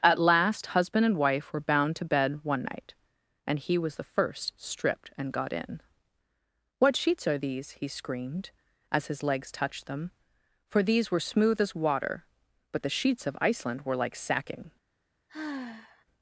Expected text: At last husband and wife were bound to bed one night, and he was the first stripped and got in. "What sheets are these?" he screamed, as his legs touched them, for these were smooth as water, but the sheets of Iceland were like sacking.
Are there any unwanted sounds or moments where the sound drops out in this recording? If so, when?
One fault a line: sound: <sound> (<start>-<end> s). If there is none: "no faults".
sound: sigh (15.3-16.1 s)